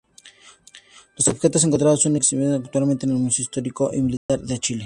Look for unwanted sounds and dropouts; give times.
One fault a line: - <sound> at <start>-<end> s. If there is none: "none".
- dropout at 4.2-4.3 s